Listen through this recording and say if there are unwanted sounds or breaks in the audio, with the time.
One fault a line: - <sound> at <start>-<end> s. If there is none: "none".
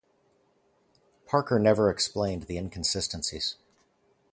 none